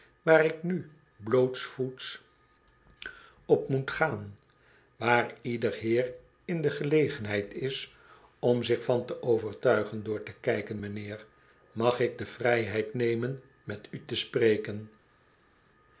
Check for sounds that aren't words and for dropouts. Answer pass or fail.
pass